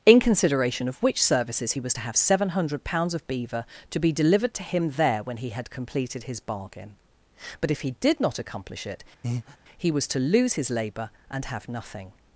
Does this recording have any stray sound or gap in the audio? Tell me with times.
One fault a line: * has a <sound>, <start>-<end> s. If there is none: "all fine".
* has a breath, 9.2-9.6 s